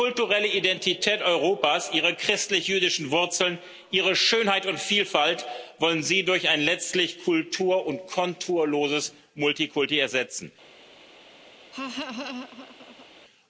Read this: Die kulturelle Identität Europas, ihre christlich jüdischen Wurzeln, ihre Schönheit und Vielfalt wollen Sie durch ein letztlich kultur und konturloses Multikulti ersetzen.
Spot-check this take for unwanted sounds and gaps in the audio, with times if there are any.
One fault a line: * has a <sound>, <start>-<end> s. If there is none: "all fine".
* has a laugh, 11.7-13.1 s